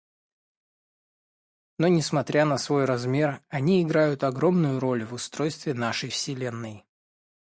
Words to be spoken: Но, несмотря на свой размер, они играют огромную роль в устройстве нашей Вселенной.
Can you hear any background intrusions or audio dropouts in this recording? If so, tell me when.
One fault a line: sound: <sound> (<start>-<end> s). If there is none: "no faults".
no faults